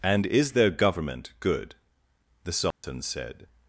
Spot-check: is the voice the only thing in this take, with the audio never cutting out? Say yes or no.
no